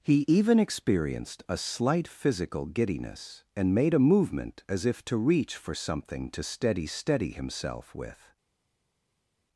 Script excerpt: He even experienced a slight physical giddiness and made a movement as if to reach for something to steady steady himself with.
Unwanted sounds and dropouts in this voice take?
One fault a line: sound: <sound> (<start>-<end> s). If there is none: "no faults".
no faults